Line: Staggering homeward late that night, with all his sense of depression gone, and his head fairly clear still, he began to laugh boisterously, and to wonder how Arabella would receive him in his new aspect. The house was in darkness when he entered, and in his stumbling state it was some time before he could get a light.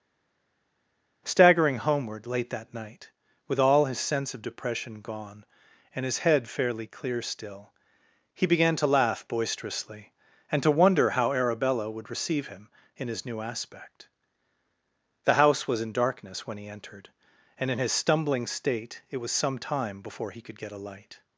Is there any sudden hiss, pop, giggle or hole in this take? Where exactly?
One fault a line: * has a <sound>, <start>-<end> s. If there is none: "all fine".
all fine